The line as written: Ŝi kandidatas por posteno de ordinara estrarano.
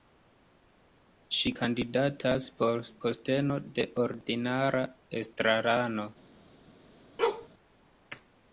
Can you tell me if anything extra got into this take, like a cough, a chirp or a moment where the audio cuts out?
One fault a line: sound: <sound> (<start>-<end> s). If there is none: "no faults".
sound: bark (7.2-7.5 s)